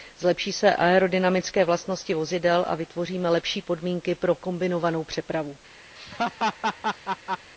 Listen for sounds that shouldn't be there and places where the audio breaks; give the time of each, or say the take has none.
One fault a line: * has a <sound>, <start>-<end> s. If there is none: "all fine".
* has a laugh, 6.0-7.5 s